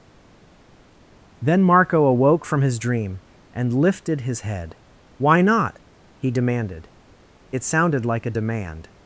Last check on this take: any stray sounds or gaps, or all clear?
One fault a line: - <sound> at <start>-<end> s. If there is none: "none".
none